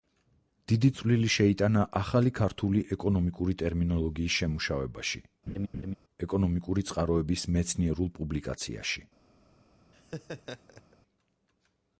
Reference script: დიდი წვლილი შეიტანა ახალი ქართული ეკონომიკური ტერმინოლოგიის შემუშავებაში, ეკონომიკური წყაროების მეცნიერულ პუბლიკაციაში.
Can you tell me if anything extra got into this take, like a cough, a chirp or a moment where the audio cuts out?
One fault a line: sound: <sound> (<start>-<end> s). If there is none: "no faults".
sound: laugh (5.5-6.0 s)
sound: laugh (9.9-11.0 s)